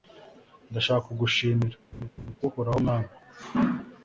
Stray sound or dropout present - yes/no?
yes